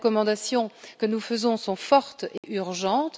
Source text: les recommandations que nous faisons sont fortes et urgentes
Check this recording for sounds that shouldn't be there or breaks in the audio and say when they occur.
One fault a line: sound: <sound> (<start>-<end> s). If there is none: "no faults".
sound: dropout (2.4-2.4 s)